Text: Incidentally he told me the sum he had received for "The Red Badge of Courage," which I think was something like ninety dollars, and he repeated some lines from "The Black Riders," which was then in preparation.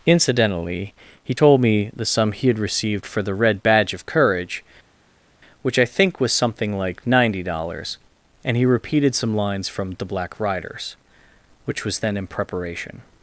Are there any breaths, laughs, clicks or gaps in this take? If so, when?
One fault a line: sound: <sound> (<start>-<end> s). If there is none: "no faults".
no faults